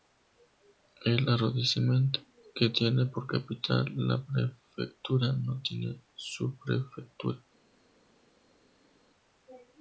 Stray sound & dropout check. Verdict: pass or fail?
pass